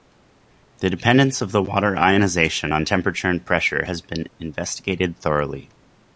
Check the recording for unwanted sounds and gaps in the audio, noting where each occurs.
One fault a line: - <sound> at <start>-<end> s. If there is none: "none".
none